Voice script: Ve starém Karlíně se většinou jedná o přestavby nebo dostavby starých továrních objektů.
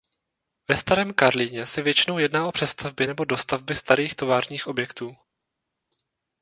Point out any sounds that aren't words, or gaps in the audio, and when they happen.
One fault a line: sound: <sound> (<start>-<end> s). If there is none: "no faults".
no faults